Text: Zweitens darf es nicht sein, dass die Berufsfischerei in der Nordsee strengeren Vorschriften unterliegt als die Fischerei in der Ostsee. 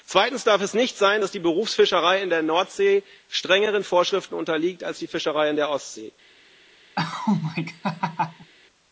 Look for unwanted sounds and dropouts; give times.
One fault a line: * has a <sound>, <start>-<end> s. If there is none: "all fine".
* has a laugh, 7.0-8.5 s